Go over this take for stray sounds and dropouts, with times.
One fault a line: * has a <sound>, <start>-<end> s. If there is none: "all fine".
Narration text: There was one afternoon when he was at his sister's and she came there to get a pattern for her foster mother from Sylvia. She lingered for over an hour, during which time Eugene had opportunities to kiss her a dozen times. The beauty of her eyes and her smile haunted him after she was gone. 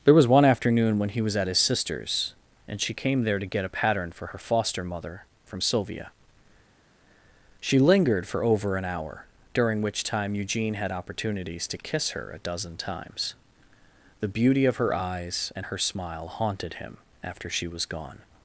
all fine